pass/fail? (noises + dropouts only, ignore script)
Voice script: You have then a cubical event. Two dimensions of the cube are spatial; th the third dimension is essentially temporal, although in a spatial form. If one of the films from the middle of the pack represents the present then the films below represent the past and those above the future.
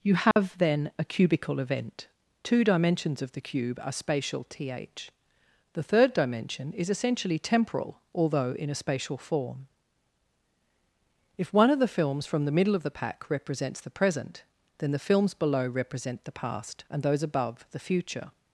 fail